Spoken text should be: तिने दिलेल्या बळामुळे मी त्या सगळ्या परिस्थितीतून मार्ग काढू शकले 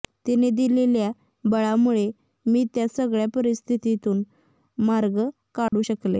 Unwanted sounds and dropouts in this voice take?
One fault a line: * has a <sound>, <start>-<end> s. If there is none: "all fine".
* has a dropout, 5.7-5.7 s